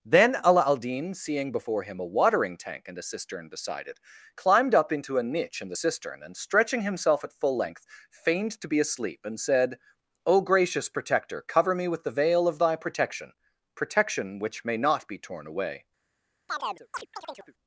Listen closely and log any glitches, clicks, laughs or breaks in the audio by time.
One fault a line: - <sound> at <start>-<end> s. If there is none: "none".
- chirp at 16.5-17.5 s